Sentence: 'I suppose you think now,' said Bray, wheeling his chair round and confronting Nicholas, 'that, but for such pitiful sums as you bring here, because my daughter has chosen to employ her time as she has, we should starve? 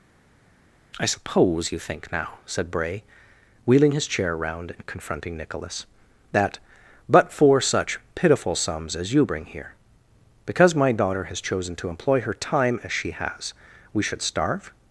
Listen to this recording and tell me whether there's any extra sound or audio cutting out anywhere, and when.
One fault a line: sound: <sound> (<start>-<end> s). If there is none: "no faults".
no faults